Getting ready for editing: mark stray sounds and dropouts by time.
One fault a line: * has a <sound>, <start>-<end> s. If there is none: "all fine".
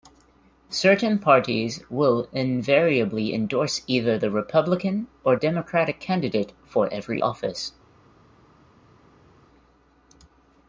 all fine